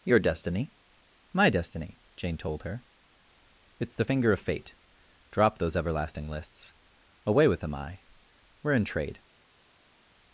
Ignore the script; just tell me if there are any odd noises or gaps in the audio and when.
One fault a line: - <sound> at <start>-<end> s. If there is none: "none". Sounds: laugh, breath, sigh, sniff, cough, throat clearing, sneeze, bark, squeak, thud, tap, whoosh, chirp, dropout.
none